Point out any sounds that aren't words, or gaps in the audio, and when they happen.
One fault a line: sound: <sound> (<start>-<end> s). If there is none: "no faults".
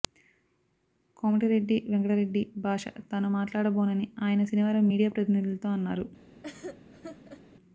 sound: laugh (6.4-7.4 s)